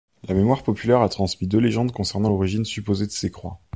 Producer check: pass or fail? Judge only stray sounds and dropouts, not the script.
pass